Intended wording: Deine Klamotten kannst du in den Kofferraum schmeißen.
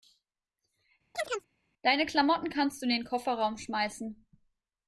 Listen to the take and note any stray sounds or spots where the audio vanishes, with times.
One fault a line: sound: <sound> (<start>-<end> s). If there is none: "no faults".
sound: chirp (1.1-1.5 s)